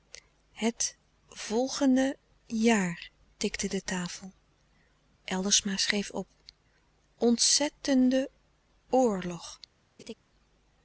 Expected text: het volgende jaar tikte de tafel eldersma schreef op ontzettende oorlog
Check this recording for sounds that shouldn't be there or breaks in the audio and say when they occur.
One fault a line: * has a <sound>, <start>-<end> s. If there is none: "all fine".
* has a laugh, 10.0-10.1 s